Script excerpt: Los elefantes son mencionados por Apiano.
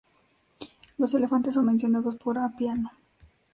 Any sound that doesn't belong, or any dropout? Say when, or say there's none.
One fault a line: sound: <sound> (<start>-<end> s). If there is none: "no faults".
no faults